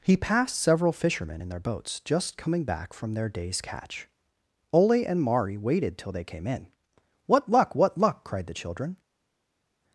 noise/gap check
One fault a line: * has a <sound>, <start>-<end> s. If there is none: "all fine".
all fine